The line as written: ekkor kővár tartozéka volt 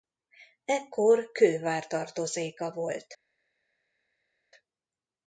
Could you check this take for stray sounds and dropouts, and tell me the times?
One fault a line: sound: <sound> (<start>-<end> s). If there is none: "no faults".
no faults